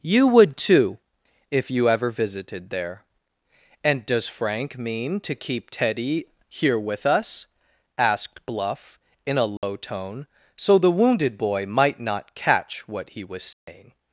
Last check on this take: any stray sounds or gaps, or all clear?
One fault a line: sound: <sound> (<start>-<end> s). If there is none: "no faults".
sound: dropout (9.6-9.6 s)
sound: dropout (13.5-13.7 s)